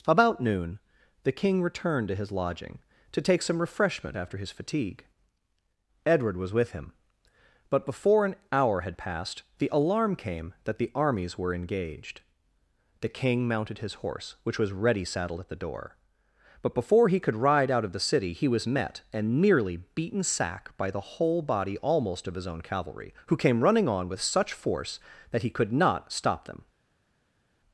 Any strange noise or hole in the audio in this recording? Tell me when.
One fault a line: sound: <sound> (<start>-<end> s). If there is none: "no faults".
no faults